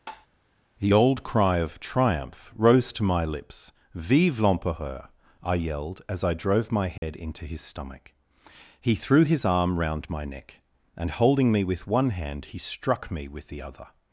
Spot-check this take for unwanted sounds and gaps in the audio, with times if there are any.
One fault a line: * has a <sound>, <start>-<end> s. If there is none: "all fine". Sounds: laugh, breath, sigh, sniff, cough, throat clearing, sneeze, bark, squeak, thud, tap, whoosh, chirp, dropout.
* has a tap, 0.1-0.3 s
* has a dropout, 7.0-7.0 s